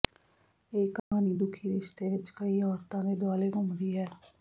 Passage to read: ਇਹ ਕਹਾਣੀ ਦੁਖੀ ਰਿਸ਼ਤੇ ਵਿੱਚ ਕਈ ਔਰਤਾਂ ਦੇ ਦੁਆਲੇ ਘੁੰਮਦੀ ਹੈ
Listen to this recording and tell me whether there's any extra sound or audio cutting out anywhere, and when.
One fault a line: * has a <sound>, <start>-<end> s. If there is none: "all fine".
* has a dropout, 1.0-1.1 s